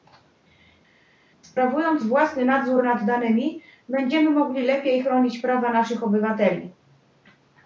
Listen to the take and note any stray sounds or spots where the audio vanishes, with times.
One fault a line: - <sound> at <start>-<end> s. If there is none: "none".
none